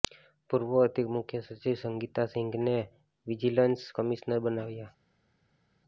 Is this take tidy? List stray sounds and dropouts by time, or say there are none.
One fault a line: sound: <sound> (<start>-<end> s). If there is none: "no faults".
no faults